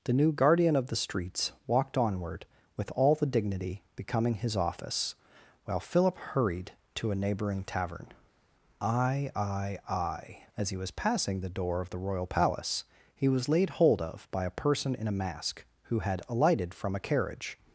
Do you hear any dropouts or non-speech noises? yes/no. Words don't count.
no